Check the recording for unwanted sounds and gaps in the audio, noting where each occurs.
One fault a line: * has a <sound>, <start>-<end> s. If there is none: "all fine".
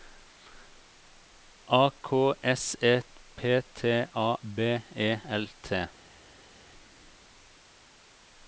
all fine